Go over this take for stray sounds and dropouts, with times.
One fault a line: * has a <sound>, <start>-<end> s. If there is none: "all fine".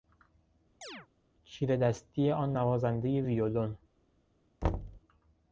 * has a chirp, 0.8-1.1 s
* has a thud, 4.6-5.0 s